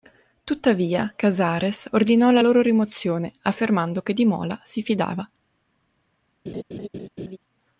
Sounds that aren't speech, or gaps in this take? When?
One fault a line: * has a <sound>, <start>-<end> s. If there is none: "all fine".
* has a laugh, 6.5-7.4 s